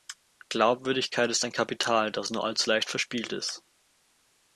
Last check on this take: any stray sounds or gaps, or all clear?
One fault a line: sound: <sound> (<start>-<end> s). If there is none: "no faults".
no faults